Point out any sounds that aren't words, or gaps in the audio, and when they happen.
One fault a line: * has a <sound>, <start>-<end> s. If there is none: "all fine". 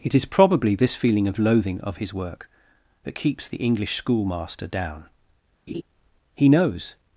* has a laugh, 5.7-5.8 s